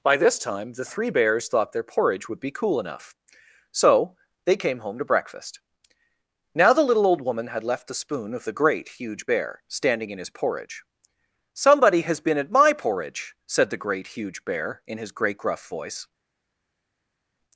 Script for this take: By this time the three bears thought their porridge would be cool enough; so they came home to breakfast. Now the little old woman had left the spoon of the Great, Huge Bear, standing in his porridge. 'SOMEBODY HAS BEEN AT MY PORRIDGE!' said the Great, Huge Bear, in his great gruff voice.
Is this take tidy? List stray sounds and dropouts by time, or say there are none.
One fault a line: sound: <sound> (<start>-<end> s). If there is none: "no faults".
no faults